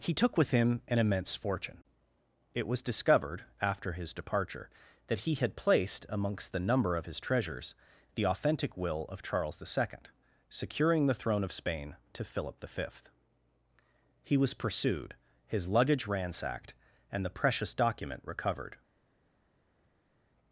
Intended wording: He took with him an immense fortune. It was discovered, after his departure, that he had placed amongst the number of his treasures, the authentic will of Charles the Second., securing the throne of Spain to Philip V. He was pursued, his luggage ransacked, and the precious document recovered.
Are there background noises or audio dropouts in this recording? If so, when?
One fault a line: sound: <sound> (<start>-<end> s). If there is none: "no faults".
no faults